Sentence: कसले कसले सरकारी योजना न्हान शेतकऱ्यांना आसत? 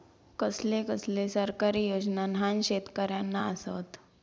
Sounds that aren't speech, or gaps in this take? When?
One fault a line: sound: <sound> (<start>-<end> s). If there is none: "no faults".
no faults